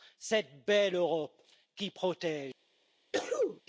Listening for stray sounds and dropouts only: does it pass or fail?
fail